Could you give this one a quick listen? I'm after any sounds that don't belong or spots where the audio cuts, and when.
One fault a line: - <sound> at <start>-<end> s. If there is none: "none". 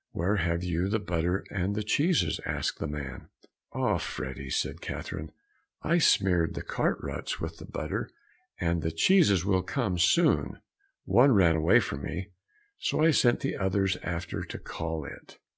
none